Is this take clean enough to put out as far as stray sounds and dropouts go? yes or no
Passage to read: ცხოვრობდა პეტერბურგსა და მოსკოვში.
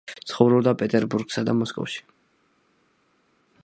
yes